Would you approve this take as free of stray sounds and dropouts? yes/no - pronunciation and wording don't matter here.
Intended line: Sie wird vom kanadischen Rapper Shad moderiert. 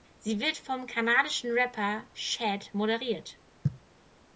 yes